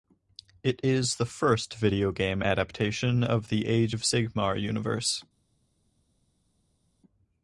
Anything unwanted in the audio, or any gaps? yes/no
no